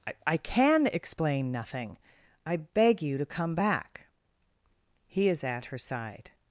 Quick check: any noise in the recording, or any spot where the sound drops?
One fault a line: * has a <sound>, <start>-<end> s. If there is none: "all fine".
all fine